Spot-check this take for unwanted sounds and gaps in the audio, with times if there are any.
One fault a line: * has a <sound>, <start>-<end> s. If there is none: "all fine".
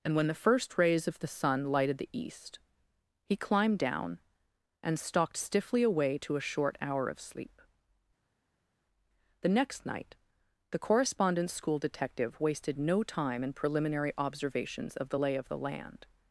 all fine